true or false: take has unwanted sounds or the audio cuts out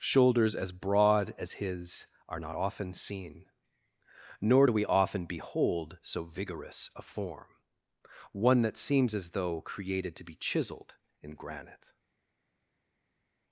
false